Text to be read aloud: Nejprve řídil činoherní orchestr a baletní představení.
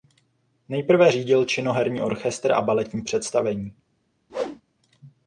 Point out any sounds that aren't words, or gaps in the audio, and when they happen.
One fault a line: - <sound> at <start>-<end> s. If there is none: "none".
- whoosh at 4.3-4.6 s